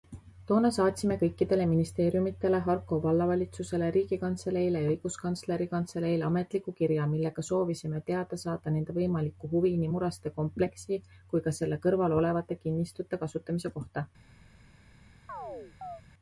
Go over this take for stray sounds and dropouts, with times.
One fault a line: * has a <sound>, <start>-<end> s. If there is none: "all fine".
* has a chirp, 15.3-16.0 s